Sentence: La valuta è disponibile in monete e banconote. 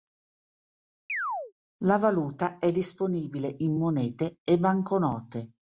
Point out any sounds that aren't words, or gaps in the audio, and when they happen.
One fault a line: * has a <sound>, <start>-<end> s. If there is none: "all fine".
* has a chirp, 1.1-1.5 s